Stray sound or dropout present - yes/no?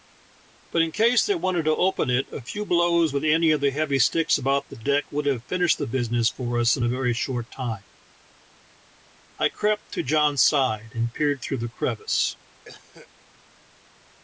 yes